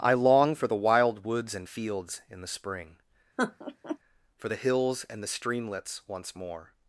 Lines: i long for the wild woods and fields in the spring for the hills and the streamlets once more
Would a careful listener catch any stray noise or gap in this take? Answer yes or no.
yes